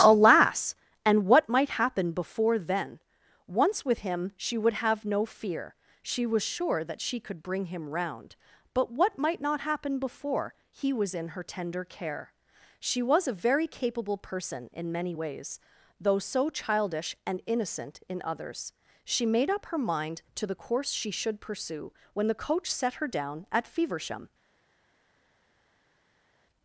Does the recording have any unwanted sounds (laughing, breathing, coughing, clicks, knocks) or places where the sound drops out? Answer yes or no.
no